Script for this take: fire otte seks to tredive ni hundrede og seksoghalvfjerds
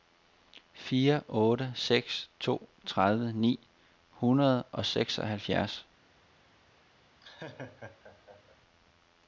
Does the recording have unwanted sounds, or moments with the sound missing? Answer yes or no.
yes